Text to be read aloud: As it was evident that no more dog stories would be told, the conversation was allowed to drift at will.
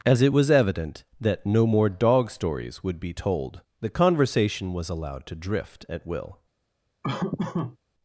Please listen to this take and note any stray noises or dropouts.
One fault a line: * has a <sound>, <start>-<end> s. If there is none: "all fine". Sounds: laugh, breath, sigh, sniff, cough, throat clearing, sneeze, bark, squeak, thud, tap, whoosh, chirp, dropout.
* has a laugh, 7.0-7.8 s